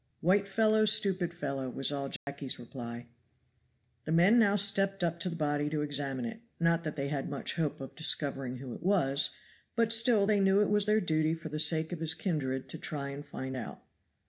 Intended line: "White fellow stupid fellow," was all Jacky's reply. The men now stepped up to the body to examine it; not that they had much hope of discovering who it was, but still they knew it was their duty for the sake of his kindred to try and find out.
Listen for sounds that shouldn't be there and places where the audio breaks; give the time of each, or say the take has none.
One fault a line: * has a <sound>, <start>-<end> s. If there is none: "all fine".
* has a dropout, 2.2-2.3 s